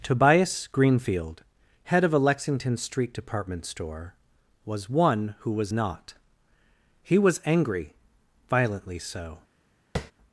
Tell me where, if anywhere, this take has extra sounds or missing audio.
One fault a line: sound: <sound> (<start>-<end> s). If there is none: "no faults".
sound: tap (10.0-10.1 s)